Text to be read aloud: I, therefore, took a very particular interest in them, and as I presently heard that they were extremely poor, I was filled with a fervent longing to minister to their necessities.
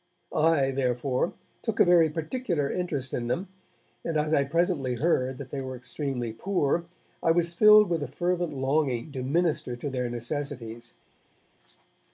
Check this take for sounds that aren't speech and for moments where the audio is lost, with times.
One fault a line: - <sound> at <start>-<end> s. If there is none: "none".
none